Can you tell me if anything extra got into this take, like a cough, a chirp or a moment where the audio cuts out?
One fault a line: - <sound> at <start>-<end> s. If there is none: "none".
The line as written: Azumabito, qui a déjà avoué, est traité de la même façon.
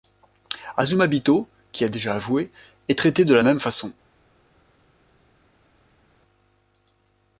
none